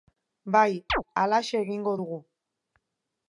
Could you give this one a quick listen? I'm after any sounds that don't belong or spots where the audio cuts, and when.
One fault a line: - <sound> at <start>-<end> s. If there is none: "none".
- chirp at 0.9-1.0 s